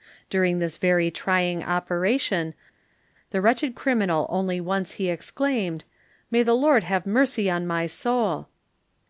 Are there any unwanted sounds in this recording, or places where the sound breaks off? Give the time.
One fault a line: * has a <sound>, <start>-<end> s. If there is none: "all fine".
all fine